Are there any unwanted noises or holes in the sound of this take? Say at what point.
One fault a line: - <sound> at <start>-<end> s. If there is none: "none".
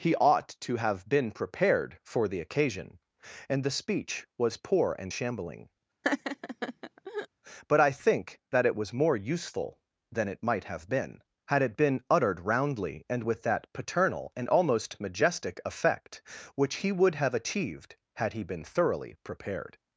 - laugh at 6.0-7.3 s